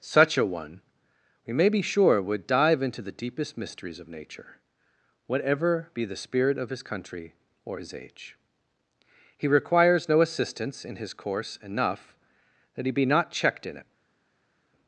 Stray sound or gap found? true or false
false